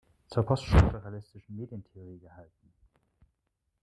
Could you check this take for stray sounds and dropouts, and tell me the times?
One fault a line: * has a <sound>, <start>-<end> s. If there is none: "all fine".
all fine